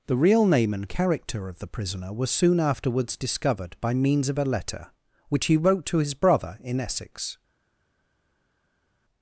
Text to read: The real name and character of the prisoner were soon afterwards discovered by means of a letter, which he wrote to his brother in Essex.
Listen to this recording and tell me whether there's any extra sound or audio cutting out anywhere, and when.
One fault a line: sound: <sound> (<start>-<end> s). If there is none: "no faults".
no faults